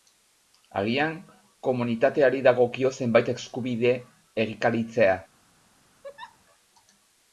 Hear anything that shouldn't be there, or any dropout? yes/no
yes